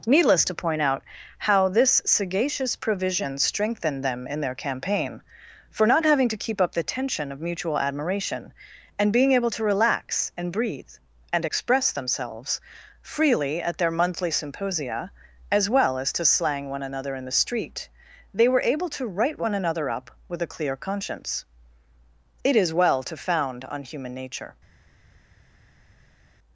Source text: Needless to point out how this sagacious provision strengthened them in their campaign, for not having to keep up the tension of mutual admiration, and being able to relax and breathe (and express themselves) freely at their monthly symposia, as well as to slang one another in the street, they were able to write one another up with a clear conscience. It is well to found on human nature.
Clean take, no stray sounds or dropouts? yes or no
yes